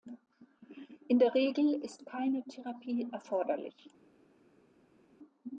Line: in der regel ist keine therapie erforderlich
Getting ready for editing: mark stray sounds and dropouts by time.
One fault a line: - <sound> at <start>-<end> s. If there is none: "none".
none